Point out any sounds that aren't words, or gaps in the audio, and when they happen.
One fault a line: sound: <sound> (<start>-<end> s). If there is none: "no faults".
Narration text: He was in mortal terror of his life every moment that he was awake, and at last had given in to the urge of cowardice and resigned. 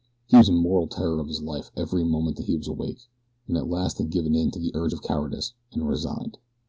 no faults